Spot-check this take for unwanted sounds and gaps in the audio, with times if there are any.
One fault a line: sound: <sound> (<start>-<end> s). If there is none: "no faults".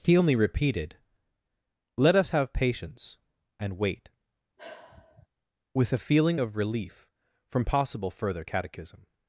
sound: sigh (4.6-5.3 s)